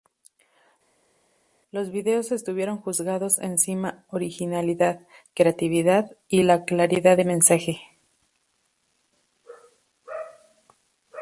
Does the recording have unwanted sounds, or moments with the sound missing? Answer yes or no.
no